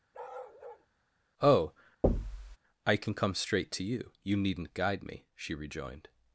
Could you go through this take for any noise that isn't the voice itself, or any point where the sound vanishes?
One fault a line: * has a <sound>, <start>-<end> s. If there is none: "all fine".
* has a bark, 0.1-0.9 s
* has a thud, 2.0-2.6 s